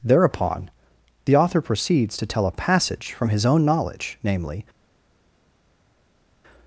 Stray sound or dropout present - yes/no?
no